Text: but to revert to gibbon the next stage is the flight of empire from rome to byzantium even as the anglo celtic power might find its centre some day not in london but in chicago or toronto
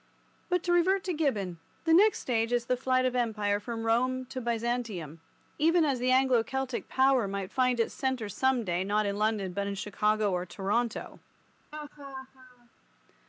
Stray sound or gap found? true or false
true